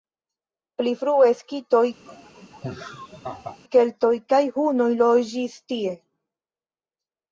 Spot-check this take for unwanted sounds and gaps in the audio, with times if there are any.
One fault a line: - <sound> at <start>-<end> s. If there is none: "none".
- laugh at 2.0-3.6 s